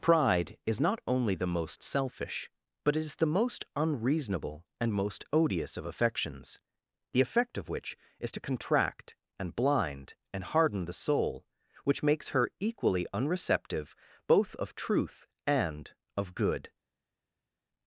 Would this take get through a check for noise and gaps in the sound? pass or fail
pass